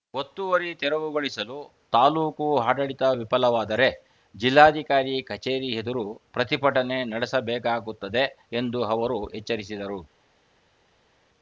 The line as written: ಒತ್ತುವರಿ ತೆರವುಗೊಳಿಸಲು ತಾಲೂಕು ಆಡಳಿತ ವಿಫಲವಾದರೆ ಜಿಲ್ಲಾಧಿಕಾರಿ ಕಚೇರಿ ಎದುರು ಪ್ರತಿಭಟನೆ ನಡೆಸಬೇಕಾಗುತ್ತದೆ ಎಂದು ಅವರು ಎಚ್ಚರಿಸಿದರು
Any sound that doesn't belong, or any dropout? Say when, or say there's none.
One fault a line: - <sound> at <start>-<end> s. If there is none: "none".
none